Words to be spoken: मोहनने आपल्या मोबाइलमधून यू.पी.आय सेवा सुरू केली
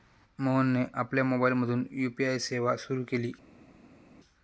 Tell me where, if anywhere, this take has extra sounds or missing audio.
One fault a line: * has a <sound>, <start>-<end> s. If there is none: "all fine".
all fine